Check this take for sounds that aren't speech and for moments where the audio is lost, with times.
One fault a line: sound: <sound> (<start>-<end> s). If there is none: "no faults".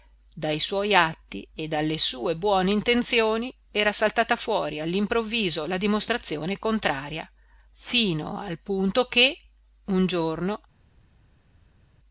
no faults